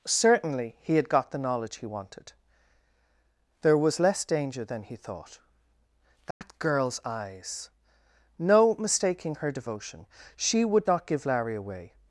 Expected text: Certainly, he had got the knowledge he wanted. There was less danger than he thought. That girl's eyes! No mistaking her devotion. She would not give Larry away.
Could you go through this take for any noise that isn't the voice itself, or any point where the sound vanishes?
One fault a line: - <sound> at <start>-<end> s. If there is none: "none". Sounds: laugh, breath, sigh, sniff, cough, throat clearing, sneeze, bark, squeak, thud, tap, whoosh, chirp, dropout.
- dropout at 6.3-6.4 s